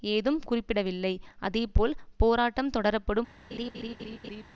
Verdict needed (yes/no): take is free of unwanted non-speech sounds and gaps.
no